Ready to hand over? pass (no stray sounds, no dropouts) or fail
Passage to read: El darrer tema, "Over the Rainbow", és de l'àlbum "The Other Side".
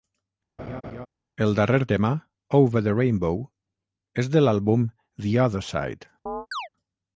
fail